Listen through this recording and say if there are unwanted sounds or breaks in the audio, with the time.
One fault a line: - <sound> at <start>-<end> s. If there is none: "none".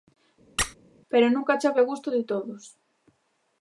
- squeak at 0.6-0.8 s